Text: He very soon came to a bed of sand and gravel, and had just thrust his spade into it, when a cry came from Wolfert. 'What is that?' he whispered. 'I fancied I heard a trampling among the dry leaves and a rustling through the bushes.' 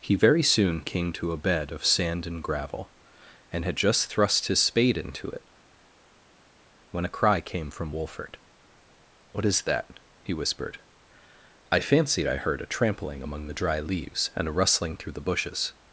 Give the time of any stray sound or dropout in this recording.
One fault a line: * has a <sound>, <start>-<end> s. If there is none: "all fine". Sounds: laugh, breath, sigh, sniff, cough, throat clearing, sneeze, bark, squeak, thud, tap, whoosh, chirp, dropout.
all fine